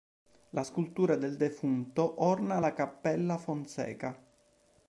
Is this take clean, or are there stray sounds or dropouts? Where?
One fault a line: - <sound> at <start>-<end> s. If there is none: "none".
none